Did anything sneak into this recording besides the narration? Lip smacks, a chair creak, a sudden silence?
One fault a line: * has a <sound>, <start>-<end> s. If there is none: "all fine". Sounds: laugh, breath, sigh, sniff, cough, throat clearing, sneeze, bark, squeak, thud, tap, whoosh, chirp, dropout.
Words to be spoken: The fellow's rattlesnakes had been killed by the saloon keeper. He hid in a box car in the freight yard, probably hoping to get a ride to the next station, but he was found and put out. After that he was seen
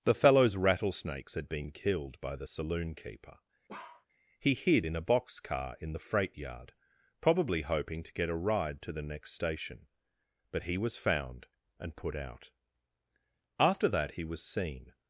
* has a bark, 3.7-4.1 s